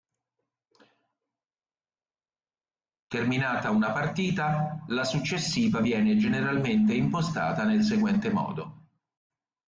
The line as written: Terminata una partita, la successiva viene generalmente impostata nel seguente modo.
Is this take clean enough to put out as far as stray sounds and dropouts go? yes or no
yes